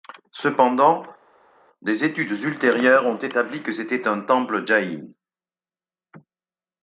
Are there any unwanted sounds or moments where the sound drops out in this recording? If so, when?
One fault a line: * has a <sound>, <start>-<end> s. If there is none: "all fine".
all fine